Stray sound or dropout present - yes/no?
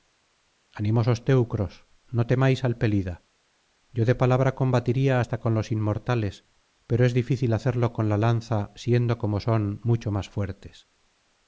no